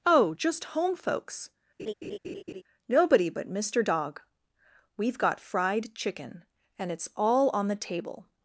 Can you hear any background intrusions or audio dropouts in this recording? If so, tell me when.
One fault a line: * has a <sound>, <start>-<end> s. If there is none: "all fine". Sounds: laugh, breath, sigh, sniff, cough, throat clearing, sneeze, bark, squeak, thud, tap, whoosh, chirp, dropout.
* has a laugh, 1.8-2.6 s